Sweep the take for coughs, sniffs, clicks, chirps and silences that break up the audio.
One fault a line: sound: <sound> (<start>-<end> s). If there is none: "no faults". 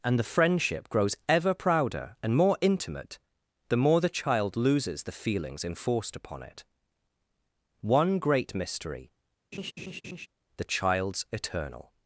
sound: laugh (9.5-10.3 s)